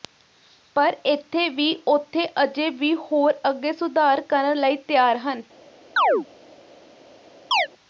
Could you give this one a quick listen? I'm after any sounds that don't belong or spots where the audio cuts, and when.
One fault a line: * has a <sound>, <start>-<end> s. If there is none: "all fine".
* has a chirp, 6.0-6.3 s
* has a chirp, 7.5-7.7 s